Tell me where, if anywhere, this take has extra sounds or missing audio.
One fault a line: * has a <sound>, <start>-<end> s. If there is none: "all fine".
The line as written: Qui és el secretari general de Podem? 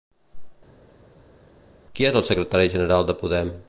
all fine